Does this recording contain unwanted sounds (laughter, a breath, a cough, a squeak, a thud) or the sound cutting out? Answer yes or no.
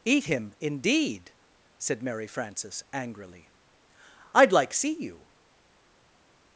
no